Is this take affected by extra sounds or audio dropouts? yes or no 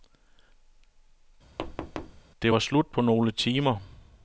yes